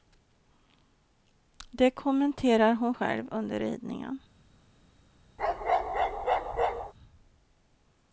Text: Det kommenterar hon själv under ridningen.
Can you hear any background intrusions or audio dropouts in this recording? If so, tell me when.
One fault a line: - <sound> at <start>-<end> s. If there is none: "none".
- bark at 5.4-6.9 s